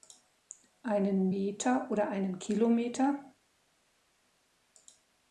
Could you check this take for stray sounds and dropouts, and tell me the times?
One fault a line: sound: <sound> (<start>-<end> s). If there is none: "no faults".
no faults